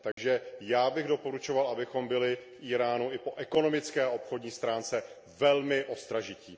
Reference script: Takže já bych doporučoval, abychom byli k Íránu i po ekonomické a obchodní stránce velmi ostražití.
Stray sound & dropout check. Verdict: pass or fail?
fail